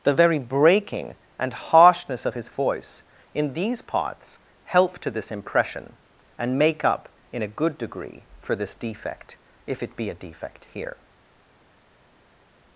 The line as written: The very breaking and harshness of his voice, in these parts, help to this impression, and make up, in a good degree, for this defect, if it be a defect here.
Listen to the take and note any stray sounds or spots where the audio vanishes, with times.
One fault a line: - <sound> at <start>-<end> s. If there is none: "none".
none